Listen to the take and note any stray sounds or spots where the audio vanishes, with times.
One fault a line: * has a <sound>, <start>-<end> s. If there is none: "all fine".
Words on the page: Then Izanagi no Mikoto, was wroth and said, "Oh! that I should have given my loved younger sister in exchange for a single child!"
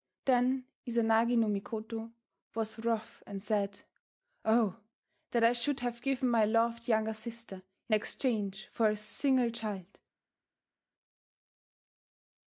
all fine